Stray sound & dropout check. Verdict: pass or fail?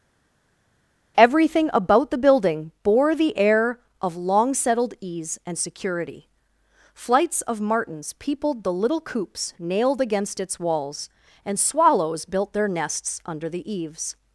pass